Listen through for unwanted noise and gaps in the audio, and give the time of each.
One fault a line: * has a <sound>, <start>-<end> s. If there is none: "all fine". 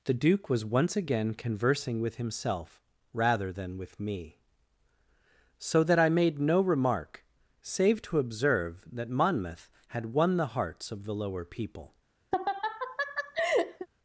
* has a laugh, 12.3-13.9 s